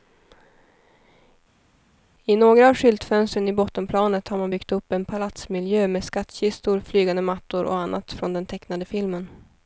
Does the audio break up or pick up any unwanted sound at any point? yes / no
no